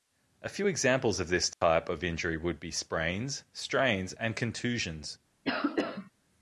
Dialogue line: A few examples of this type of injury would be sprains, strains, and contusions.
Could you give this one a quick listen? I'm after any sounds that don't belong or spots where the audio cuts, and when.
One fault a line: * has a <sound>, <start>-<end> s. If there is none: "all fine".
* has a dropout, 1.5-1.6 s
* has a cough, 5.4-6.1 s